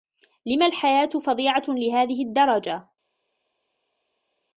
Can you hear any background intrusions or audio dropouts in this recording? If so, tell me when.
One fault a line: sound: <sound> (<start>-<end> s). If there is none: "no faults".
no faults